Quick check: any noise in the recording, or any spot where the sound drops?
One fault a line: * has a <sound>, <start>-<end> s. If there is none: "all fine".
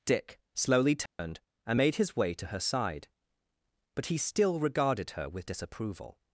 * has a dropout, 1.1-1.2 s